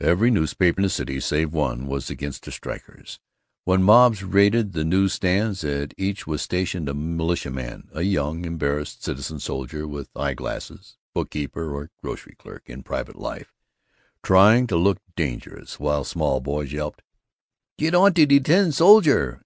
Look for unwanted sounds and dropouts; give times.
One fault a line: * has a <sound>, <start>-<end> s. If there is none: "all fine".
all fine